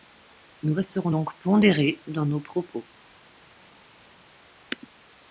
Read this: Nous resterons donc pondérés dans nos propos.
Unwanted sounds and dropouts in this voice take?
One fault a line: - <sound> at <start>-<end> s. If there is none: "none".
none